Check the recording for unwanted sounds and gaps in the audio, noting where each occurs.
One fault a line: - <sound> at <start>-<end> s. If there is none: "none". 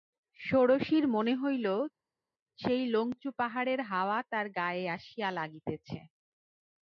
none